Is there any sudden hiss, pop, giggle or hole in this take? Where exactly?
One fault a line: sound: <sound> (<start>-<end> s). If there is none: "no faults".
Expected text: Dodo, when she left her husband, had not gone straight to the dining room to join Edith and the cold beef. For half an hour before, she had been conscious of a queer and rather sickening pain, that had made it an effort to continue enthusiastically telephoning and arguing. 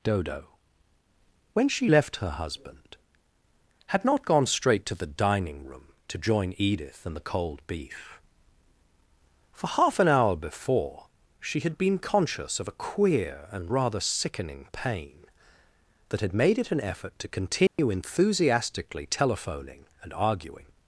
sound: dropout (17.7-17.8 s)